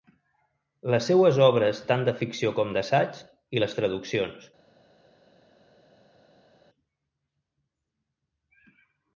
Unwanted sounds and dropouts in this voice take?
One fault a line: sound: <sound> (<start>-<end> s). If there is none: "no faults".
no faults